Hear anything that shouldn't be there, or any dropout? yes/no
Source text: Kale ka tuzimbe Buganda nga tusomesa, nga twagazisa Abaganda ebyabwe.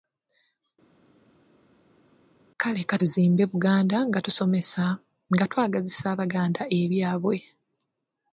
no